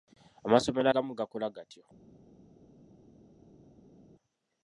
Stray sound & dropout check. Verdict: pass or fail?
pass